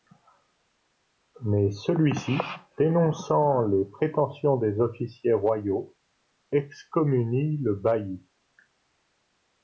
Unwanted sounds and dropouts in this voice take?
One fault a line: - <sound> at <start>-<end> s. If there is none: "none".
none